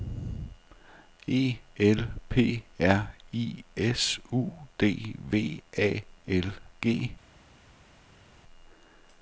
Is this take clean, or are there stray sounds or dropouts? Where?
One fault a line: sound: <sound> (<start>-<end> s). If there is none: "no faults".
no faults